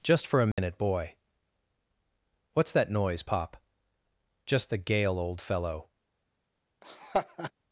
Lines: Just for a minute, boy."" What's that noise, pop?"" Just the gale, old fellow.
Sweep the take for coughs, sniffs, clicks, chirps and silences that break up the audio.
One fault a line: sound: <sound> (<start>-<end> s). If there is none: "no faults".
sound: dropout (0.5-0.6 s)
sound: laugh (6.8-7.5 s)